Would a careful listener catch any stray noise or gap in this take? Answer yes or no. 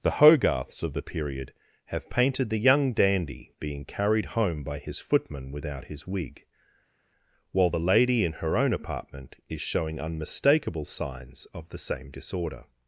no